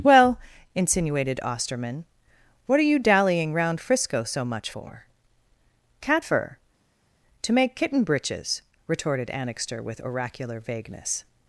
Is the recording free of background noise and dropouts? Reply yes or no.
yes